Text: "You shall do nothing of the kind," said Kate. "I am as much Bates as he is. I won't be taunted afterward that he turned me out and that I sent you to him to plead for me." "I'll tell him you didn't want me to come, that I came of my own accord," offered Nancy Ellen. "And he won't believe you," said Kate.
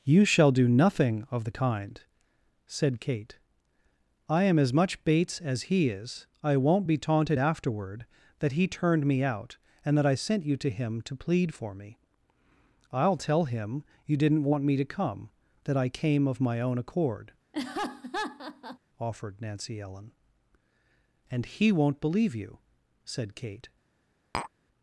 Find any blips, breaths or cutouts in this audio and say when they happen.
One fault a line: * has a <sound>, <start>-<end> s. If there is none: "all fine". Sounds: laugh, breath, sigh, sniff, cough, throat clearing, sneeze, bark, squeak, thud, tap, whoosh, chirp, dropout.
* has a laugh, 17.5-18.8 s
* has a tap, 24.3-24.5 s